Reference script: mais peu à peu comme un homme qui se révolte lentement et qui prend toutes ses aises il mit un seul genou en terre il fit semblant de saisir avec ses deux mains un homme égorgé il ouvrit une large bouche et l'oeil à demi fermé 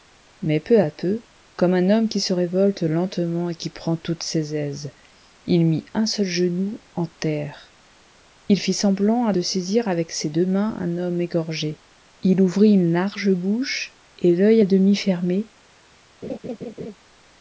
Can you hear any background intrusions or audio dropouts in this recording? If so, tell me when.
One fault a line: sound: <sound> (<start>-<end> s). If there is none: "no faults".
sound: laugh (16.2-17.0 s)